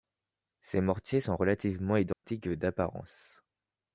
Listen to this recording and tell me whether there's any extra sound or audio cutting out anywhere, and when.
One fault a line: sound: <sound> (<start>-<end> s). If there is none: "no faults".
sound: dropout (2.1-2.2 s)